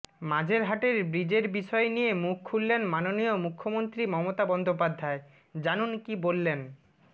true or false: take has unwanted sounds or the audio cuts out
false